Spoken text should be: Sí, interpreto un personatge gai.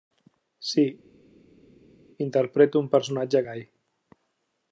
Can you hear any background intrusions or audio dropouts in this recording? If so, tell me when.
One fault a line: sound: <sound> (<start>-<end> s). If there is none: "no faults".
no faults